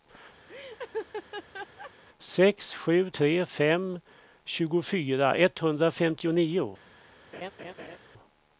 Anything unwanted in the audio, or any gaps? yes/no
yes